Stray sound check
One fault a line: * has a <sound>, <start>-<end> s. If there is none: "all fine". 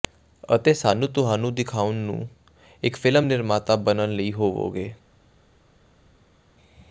all fine